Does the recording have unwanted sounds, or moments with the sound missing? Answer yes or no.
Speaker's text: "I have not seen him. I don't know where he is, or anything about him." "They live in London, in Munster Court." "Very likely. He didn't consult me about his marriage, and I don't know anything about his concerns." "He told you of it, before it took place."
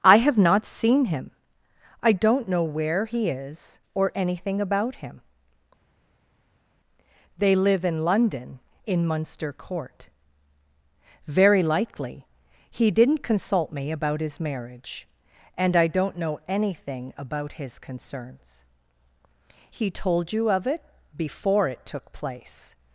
no